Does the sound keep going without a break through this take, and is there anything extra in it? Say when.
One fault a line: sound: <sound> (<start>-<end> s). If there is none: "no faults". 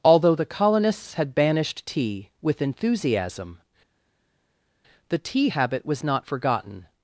no faults